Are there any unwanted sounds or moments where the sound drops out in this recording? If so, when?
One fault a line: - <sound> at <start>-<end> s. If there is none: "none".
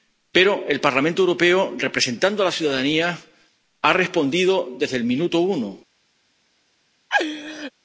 - laugh at 7.1-7.7 s